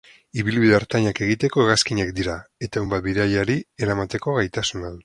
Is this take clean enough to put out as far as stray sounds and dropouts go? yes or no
yes